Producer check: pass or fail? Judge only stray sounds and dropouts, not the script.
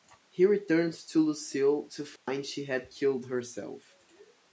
fail